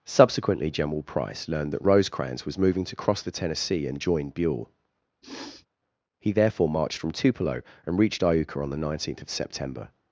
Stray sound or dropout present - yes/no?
yes